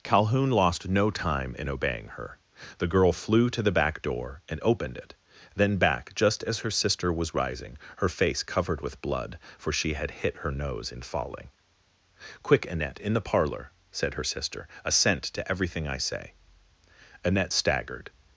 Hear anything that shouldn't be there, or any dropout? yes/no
no